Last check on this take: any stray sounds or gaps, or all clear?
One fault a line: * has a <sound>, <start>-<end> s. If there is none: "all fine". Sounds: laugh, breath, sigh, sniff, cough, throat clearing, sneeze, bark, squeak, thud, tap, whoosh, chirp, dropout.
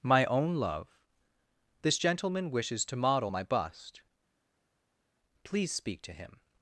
all fine